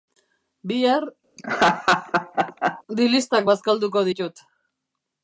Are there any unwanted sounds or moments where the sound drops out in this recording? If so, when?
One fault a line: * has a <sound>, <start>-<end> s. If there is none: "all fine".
* has a laugh, 1.4-2.8 s